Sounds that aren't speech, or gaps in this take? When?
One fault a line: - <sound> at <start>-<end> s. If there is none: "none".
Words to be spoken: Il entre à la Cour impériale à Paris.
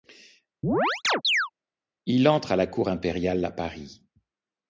- chirp at 0.6-1.5 s